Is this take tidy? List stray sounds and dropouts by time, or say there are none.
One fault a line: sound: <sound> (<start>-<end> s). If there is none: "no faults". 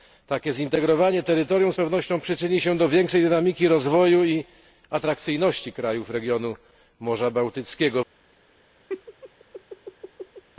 sound: laugh (8.9-10.4 s)